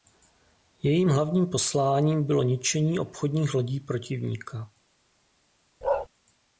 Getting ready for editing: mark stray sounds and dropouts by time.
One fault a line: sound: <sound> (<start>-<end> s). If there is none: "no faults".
sound: bark (5.8-6.1 s)